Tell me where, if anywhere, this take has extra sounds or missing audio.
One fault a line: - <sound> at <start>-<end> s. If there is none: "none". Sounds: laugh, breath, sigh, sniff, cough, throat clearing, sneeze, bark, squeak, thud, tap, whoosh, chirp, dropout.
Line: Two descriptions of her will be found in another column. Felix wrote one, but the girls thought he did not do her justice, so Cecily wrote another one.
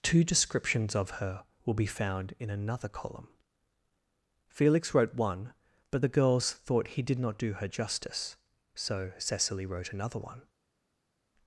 none